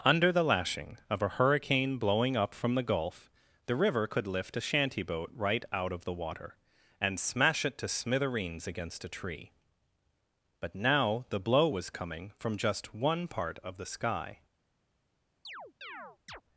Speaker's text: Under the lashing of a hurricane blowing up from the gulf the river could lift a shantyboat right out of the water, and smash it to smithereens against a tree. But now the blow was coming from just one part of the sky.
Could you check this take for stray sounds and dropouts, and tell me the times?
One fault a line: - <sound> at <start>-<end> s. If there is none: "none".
- chirp at 15.4-16.4 s